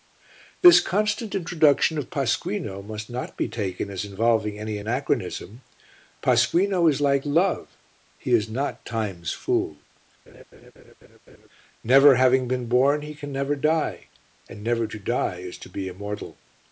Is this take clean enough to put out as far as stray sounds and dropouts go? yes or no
no